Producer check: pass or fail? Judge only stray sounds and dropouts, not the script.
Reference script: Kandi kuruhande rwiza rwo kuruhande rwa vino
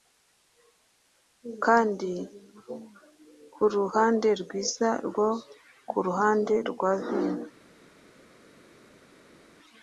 pass